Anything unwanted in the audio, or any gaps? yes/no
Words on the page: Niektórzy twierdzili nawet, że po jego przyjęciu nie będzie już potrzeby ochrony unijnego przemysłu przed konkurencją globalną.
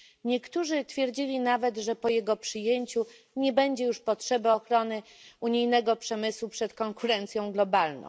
no